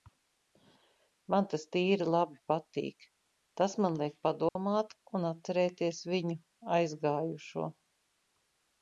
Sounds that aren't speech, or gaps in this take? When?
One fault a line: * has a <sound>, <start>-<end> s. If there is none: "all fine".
* has a dropout, 4.5-4.6 s